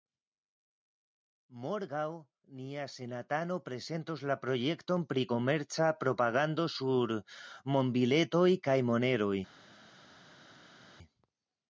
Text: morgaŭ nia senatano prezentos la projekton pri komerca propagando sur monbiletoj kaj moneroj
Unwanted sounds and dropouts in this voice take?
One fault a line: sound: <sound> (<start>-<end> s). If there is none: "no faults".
no faults